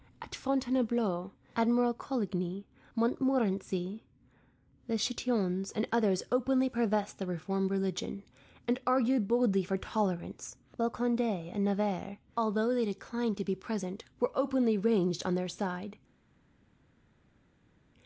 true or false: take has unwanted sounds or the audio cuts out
false